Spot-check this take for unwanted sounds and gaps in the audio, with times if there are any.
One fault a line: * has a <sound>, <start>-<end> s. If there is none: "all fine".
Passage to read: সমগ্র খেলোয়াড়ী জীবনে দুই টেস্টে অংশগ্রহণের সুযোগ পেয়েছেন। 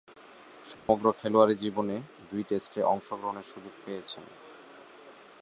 * has a dropout, 0.7-0.9 s